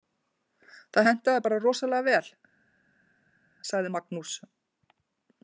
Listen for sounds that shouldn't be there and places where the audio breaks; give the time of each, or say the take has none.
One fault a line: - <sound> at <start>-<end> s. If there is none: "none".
none